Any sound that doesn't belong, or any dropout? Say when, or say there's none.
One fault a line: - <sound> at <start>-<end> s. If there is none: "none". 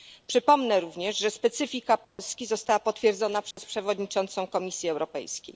- dropout at 2.0-2.2 s
- dropout at 3.5-3.6 s